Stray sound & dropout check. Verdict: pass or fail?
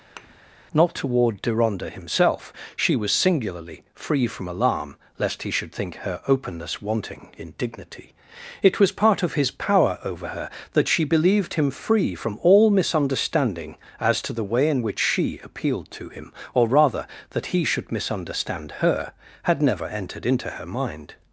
fail